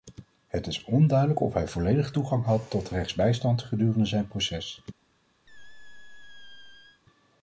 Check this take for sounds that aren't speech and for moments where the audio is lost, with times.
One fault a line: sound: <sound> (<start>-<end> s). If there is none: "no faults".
sound: squeak (5.5-7.0 s)